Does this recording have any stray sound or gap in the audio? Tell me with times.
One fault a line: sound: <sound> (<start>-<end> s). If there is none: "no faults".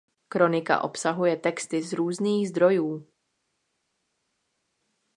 no faults